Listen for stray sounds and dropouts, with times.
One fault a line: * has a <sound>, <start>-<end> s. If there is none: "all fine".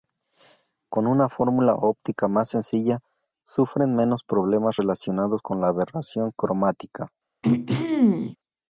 * has a throat clearing, 7.4-8.4 s